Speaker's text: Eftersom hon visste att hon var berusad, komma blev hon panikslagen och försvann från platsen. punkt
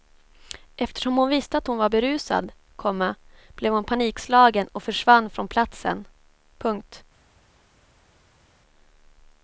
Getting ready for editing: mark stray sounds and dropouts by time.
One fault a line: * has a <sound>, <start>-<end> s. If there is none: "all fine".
all fine